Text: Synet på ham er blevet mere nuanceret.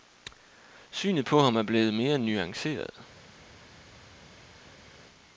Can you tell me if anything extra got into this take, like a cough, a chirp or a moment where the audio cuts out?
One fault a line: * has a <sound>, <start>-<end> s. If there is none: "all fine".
all fine